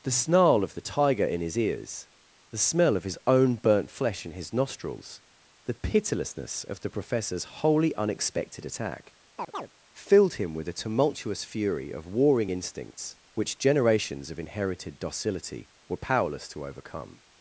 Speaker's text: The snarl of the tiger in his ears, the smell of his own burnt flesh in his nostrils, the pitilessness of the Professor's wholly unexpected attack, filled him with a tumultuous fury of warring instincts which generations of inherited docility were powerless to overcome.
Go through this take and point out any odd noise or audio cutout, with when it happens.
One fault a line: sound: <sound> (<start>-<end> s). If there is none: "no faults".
sound: chirp (9.4-9.7 s)